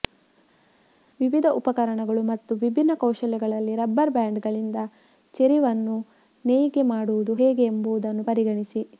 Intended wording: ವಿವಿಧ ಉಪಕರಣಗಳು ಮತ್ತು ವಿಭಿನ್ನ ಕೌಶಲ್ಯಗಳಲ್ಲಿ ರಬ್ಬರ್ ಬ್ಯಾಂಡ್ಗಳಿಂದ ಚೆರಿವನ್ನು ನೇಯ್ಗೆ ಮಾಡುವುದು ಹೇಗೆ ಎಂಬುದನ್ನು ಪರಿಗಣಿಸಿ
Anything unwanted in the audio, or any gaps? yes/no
no